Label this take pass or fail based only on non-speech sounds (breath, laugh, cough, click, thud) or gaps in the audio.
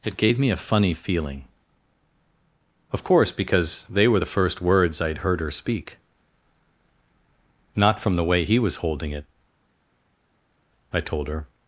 pass